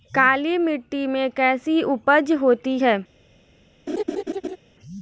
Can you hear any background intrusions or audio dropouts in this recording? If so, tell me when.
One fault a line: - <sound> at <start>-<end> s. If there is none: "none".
- laugh at 3.9-4.6 s